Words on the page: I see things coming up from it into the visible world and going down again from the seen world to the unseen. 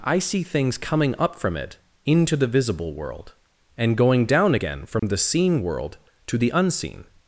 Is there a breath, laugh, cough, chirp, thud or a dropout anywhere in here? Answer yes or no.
yes